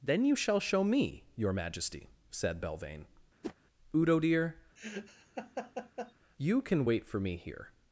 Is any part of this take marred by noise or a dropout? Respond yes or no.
yes